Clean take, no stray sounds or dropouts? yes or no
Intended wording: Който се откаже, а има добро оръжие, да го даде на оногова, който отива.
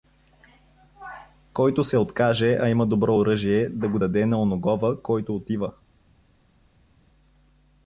yes